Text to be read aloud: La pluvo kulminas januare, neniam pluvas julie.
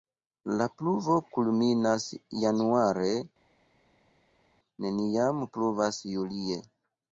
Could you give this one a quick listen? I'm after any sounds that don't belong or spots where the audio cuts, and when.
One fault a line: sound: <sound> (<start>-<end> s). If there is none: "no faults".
no faults